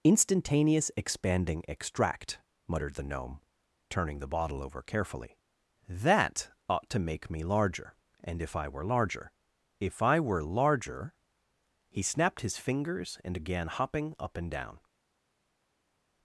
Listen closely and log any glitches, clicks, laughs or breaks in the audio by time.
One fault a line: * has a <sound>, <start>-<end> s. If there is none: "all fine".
all fine